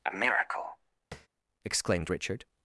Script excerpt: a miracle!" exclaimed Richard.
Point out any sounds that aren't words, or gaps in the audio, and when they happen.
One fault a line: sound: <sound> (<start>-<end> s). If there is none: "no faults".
sound: tap (1.1-1.3 s)